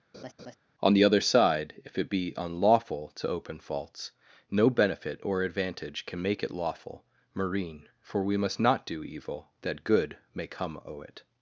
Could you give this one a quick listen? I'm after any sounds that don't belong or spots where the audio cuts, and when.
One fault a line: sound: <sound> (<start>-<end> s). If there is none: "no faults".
sound: laugh (0.1-0.6 s)